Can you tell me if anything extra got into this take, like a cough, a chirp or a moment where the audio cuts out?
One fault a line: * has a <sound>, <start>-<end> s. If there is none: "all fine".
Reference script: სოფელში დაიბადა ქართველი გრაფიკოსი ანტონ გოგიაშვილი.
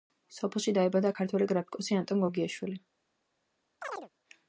* has a chirp, 3.8-4.1 s